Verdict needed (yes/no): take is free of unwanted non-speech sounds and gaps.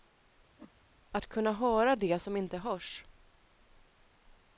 no